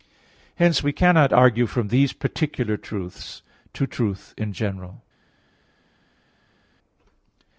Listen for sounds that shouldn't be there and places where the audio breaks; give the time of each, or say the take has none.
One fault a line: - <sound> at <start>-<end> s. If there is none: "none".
none